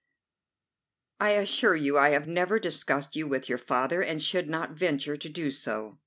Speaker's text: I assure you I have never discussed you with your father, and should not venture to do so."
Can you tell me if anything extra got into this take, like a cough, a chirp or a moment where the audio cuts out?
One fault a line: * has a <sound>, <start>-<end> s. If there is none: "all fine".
all fine